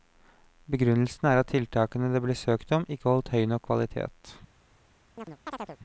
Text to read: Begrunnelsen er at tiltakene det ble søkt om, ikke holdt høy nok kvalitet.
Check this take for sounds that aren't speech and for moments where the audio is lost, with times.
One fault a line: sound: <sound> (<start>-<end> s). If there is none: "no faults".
sound: chirp (5.2-5.8 s)